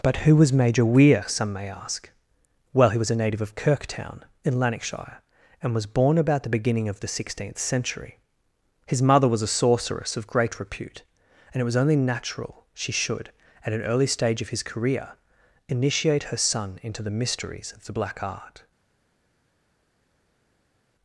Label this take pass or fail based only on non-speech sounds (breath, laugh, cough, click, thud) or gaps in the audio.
pass